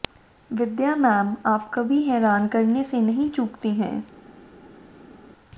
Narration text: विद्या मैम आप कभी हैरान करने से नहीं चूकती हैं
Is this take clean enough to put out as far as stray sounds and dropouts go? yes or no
yes